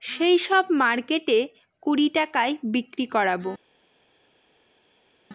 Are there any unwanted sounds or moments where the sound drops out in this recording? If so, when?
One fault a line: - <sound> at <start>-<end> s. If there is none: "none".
none